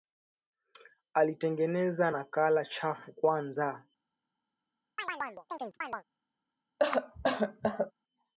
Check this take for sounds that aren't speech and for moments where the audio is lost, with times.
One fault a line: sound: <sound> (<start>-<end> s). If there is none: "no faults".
sound: chirp (5.0-6.0 s)
sound: cough (6.8-7.9 s)